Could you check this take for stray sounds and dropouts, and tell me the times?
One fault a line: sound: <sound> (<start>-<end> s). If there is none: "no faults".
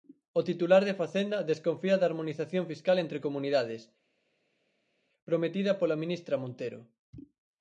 no faults